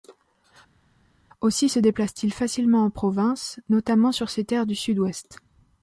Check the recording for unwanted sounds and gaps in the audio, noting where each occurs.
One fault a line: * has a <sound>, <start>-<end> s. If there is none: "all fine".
all fine